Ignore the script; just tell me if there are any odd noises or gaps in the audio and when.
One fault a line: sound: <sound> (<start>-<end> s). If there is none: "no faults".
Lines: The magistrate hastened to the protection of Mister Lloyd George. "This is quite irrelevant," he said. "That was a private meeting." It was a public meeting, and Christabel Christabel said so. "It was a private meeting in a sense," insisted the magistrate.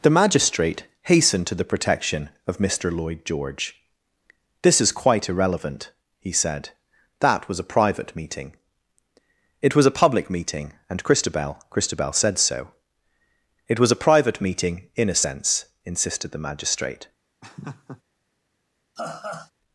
sound: laugh (17.4-18.0 s)
sound: laugh (19.0-19.5 s)